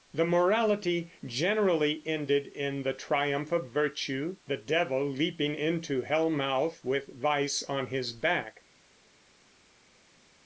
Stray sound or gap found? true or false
false